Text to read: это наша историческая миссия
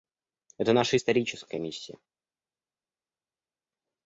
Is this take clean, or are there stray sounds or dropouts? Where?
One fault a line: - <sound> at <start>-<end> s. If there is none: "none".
none